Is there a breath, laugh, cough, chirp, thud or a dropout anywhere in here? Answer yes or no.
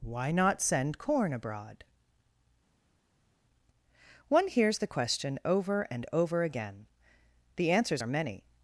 no